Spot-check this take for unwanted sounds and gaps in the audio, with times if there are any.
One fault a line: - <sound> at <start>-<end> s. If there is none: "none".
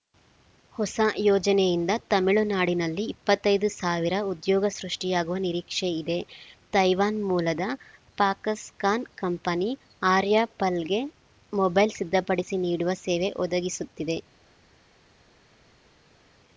none